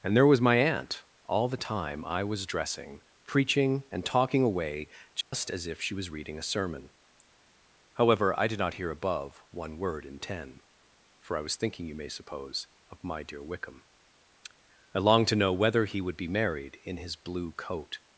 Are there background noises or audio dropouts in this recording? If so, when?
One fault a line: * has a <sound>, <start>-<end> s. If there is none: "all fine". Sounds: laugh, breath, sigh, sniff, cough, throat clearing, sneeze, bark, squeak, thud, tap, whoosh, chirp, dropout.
* has a dropout, 5.2-5.3 s